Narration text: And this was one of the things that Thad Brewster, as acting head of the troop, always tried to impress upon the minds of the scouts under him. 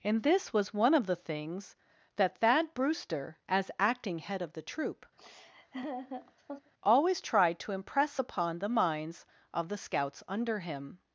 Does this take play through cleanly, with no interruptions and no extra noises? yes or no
no